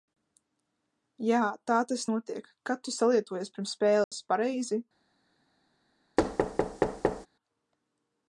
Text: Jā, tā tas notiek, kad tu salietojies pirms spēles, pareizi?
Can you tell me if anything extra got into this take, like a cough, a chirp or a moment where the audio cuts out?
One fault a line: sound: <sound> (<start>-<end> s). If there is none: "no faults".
sound: dropout (4.0-4.1 s)
sound: thud (6.2-7.3 s)